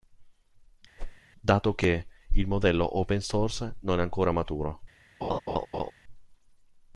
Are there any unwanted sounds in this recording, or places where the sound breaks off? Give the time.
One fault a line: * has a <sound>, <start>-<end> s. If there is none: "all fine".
* has a whoosh, 1.0-1.2 s
* has a laugh, 5.2-5.9 s